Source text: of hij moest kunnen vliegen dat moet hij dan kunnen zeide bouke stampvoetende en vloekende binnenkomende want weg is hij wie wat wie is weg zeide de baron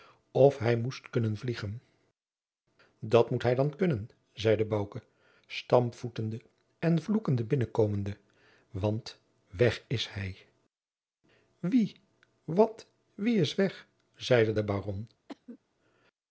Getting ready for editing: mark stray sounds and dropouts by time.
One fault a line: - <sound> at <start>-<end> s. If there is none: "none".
- cough at 15.3-15.6 s